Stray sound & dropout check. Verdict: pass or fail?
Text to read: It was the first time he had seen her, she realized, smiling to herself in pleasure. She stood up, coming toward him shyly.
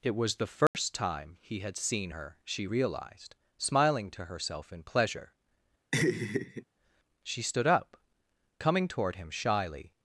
fail